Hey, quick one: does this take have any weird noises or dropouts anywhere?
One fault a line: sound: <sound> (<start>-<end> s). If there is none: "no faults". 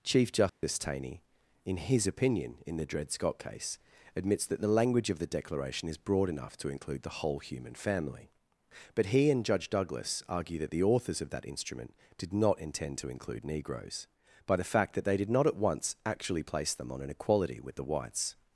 sound: dropout (0.5-0.6 s)